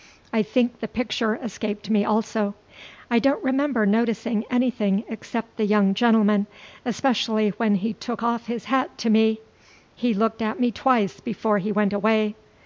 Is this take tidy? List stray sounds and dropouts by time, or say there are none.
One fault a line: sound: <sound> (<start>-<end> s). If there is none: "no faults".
no faults